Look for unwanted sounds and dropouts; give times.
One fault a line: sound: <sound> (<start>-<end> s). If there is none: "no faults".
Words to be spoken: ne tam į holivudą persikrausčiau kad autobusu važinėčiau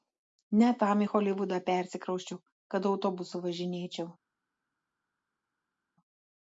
no faults